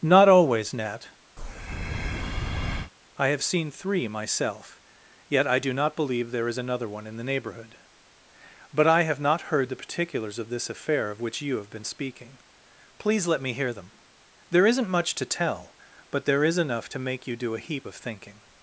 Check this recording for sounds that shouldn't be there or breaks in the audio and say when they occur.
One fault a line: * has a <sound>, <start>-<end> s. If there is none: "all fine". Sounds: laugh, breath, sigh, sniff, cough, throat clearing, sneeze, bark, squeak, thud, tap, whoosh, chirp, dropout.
* has a breath, 1.4-2.9 s